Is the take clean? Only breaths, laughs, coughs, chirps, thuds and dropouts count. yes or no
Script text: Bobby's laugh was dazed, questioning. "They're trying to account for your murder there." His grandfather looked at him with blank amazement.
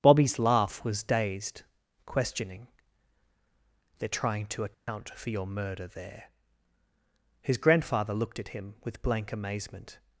no